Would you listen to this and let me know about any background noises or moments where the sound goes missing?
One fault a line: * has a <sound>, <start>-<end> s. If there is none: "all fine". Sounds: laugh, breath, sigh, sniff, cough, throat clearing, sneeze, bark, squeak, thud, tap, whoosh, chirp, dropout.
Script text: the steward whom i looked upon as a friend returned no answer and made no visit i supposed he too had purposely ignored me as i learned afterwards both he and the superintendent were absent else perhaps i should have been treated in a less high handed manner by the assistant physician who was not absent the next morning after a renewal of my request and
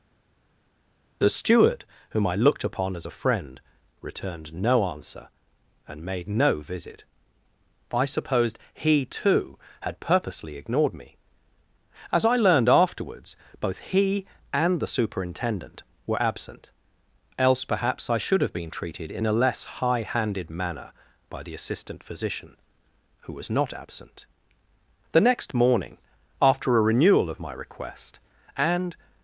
all fine